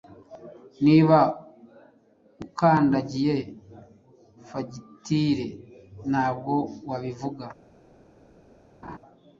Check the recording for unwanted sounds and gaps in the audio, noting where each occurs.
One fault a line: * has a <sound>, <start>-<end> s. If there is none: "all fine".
* has a laugh, 8.8-9.0 s